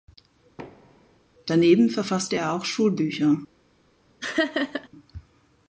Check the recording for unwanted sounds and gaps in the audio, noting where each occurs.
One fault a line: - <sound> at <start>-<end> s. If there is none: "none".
- thud at 0.6-1.2 s
- laugh at 4.2-4.9 s